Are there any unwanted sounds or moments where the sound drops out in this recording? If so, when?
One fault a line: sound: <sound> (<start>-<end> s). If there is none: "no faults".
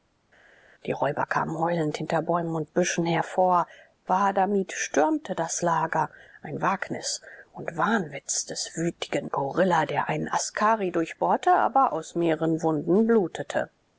no faults